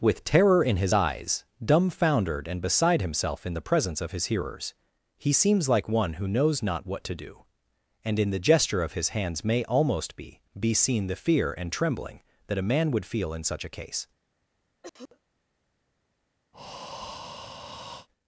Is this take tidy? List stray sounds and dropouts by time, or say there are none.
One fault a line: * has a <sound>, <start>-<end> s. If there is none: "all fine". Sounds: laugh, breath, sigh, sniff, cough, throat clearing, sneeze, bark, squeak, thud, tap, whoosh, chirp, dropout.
* has a cough, 14.8-15.2 s
* has a breath, 16.5-18.1 s